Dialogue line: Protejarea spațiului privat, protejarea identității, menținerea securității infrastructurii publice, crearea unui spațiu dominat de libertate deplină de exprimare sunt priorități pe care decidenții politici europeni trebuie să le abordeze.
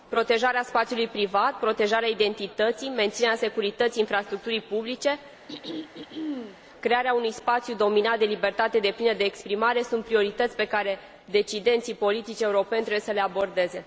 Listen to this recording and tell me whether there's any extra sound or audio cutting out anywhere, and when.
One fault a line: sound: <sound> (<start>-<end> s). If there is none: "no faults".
sound: throat clearing (5.5-6.6 s)